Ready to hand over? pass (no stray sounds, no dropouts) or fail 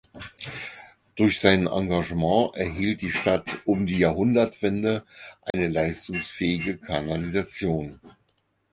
fail